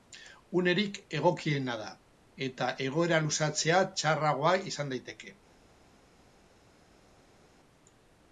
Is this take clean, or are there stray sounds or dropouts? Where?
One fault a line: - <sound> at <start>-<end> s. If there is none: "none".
none